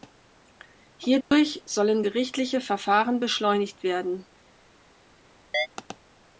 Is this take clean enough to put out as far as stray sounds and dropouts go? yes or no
no